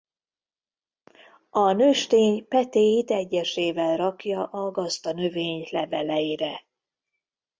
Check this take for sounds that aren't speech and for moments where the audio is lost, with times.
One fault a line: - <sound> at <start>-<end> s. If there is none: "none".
none